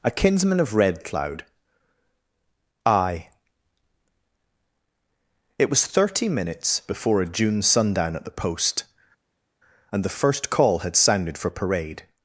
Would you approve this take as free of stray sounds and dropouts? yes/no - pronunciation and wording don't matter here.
yes